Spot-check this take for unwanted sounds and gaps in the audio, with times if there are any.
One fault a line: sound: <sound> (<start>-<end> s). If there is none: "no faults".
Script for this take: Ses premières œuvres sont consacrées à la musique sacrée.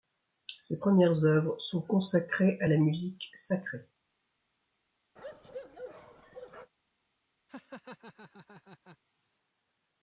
sound: bark (5.2-6.7 s)
sound: laugh (7.5-9.0 s)